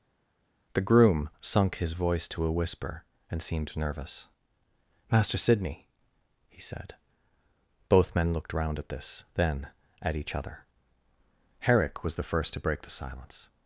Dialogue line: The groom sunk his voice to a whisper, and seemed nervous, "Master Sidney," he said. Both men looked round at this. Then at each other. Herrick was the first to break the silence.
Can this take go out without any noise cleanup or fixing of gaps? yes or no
yes